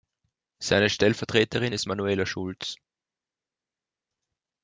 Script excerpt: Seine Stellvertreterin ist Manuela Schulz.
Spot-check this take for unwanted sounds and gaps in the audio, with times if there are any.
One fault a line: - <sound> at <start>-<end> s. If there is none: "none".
none